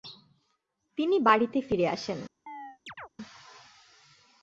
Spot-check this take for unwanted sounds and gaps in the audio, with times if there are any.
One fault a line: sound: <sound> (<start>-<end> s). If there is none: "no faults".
sound: chirp (2.5-3.1 s)